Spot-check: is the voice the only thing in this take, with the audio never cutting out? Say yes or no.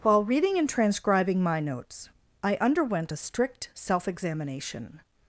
yes